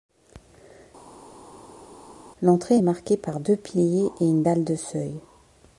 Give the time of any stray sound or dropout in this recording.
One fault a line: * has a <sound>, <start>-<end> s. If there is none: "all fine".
all fine